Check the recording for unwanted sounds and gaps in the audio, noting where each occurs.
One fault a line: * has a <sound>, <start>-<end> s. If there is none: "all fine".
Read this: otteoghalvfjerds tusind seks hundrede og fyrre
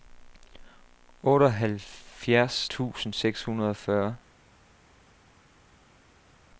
all fine